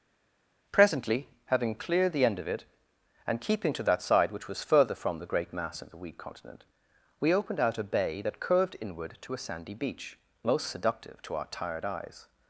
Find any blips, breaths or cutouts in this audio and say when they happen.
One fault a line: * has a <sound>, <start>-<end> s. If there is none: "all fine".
all fine